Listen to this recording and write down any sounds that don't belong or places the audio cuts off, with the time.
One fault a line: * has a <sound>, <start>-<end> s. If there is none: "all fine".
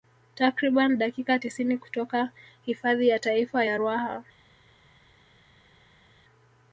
all fine